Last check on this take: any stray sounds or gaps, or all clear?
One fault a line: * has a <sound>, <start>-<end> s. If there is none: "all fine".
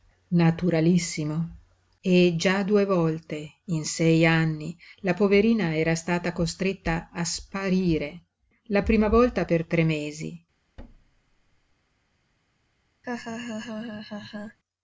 * has a thud, 10.8-11.8 s
* has a laugh, 13.0-14.6 s